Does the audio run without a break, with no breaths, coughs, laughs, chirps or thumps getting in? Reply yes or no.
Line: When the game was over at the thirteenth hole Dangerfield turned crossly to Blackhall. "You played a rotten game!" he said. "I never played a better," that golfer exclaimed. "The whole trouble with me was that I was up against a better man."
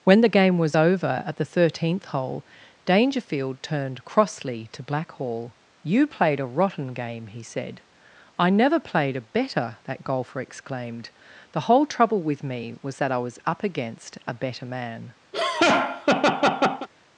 no